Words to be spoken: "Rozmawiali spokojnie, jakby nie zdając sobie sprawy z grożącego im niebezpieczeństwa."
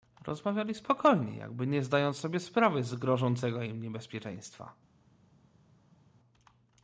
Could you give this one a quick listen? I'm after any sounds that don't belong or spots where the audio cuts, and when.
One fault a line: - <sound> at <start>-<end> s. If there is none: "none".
none